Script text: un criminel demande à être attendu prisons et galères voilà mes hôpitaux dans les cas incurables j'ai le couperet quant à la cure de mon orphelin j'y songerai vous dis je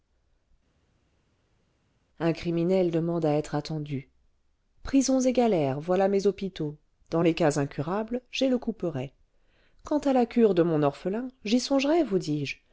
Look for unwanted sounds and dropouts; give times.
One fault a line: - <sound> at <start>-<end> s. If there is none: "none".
none